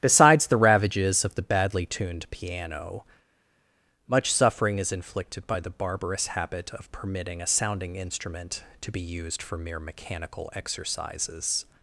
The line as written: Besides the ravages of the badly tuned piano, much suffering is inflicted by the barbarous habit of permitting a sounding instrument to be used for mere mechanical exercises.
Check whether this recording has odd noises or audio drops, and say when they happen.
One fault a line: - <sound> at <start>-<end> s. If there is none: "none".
none